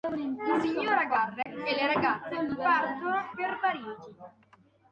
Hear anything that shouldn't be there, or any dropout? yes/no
yes